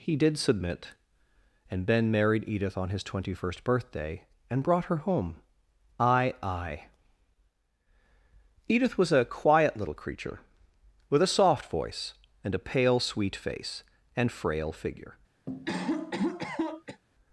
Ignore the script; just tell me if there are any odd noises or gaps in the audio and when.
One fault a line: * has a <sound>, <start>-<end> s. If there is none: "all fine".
* has a cough, 15.5-17.0 s